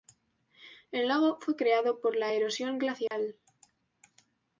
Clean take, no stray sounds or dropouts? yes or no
no